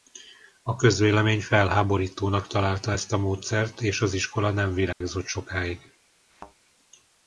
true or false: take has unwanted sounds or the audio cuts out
true